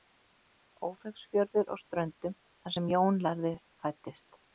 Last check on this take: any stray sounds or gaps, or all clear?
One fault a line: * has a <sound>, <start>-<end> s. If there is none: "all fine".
all fine